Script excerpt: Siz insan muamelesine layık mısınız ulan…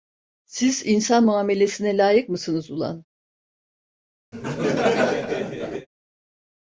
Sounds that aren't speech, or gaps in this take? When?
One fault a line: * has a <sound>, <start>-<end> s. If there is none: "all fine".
* has a laugh, 4.3-5.9 s